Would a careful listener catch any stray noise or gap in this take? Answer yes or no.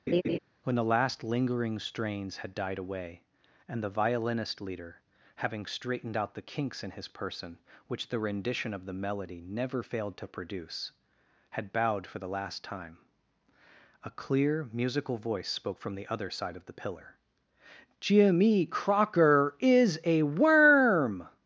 yes